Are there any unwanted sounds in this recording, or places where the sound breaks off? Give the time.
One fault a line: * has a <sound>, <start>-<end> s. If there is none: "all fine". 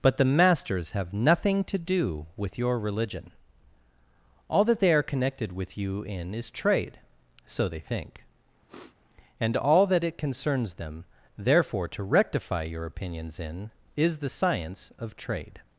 * has a sniff, 8.7-9.0 s